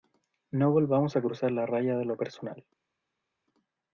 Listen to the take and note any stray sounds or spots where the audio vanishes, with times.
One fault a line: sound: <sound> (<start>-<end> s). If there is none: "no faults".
no faults